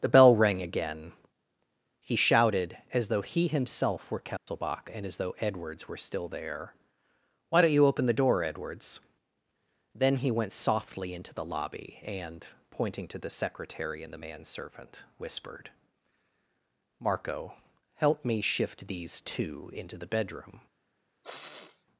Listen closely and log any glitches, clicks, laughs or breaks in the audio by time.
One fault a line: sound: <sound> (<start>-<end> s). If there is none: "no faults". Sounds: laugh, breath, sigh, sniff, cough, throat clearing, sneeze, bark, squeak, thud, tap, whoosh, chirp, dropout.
sound: dropout (4.4-4.5 s)
sound: sniff (21.2-21.9 s)